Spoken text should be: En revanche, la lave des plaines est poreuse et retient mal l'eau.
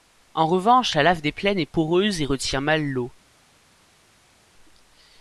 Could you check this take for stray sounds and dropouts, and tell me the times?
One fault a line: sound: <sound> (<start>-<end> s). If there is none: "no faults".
no faults